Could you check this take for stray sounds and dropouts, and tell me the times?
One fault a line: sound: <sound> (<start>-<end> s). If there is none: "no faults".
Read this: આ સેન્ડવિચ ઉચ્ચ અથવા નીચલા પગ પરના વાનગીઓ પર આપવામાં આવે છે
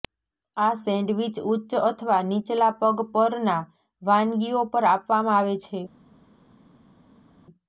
no faults